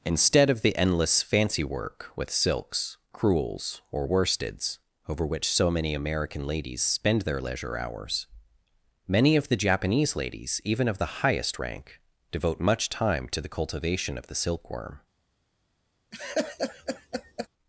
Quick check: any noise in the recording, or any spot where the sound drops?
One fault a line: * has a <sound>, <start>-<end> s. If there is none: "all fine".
* has a laugh, 16.1-17.5 s